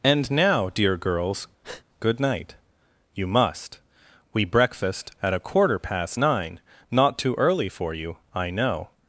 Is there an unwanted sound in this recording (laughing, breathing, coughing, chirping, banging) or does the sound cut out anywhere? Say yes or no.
yes